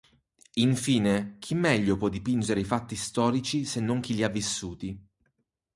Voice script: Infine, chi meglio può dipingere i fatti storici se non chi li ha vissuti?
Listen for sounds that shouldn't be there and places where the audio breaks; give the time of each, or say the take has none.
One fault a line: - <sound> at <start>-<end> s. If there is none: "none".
none